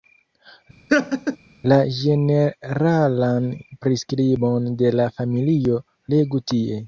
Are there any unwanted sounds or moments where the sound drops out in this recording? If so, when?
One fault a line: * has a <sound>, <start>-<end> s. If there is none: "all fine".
* has a laugh, 0.9-1.4 s